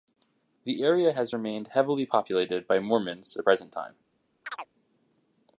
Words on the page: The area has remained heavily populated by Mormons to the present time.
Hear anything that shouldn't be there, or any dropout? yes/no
yes